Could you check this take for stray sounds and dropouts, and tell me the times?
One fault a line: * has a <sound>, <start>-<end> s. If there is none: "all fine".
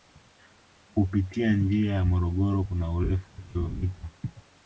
all fine